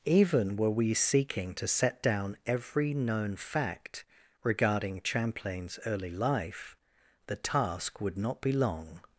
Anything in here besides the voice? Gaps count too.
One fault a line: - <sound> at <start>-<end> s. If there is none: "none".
none